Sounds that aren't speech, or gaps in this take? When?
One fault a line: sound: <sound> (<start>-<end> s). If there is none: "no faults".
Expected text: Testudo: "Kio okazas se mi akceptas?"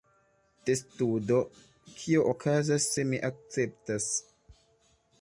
no faults